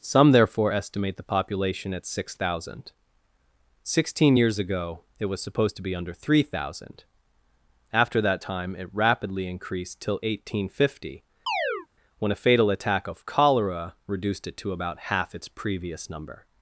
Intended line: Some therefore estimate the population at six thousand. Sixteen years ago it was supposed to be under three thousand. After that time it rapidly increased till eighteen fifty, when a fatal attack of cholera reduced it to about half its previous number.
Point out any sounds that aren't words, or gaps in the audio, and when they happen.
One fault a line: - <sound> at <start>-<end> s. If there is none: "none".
- chirp at 11.5-11.9 s